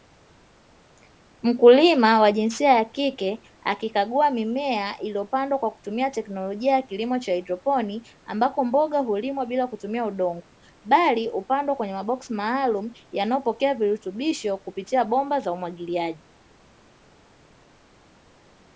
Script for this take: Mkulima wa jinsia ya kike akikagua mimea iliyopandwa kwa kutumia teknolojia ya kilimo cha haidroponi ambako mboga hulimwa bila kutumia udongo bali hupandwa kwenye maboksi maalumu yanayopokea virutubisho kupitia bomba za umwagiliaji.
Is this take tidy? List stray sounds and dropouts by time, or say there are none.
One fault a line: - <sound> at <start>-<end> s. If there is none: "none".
none